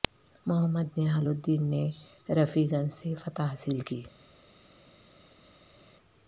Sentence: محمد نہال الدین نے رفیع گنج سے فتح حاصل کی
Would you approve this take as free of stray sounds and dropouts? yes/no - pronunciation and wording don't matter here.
yes